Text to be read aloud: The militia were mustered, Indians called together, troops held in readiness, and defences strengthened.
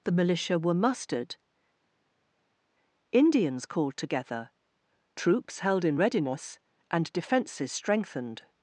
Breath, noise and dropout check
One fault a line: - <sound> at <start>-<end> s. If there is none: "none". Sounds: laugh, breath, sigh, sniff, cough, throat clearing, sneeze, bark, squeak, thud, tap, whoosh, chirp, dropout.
none